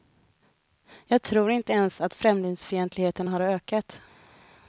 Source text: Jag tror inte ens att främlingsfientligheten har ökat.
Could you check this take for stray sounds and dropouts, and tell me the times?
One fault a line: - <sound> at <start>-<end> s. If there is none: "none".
none